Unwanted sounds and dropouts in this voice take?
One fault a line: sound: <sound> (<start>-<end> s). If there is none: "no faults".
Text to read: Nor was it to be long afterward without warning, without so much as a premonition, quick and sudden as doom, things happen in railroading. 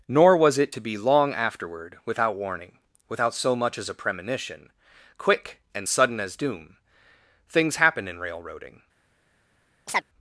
sound: chirp (9.9-10.0 s)